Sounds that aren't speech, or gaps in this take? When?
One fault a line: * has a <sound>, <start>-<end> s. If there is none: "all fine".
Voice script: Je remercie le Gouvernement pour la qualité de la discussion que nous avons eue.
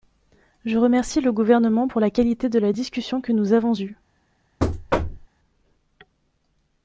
* has a thud, 4.6-5.3 s